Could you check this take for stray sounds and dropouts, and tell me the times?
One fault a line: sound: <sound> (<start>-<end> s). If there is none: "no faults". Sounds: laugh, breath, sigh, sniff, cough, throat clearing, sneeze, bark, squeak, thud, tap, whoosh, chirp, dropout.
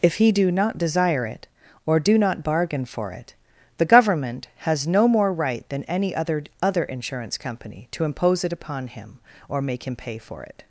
no faults